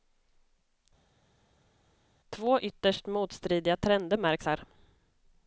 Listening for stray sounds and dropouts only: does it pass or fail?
pass